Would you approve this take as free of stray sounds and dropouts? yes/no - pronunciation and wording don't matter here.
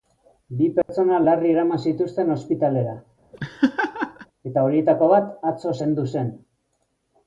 no